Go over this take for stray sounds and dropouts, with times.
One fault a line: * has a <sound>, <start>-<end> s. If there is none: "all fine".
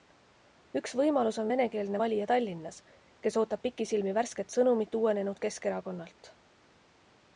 all fine